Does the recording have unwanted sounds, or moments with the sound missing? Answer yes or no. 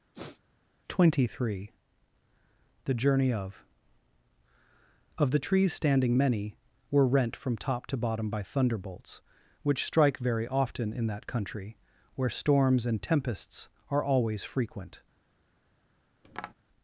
yes